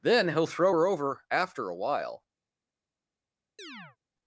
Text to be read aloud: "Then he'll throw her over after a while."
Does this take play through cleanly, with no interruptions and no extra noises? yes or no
no